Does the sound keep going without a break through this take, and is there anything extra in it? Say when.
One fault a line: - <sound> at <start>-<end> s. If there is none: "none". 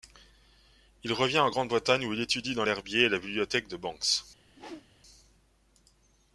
- whoosh at 4.5-4.9 s